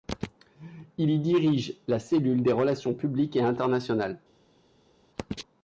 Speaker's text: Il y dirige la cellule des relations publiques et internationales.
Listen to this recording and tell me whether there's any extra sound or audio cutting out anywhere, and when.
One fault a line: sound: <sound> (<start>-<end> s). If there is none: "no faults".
no faults